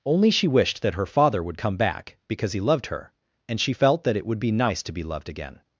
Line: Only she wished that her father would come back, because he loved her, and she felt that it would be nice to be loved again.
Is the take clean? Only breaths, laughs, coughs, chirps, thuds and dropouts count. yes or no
yes